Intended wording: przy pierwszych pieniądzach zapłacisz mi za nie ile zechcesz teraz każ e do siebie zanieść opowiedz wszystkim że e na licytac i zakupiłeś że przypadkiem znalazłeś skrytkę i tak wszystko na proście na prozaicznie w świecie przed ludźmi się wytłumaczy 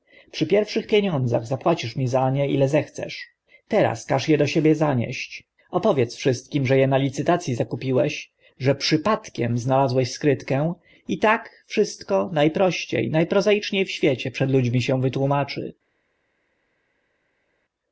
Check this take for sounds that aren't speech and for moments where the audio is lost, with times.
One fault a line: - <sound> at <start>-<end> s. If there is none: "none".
none